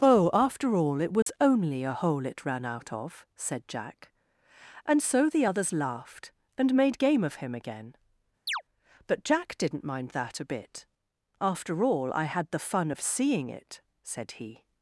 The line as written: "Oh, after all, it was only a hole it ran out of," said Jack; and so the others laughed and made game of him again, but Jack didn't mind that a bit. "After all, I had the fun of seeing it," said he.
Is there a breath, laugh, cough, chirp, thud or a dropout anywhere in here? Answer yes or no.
yes